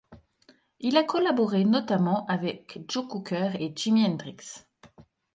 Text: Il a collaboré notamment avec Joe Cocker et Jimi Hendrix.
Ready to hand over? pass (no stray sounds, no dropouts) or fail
pass